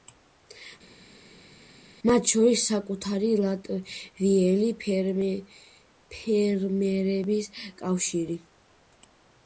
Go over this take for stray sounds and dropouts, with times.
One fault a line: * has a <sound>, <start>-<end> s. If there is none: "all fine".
all fine